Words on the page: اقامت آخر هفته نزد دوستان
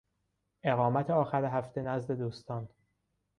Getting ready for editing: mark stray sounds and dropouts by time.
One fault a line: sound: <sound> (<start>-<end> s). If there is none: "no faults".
no faults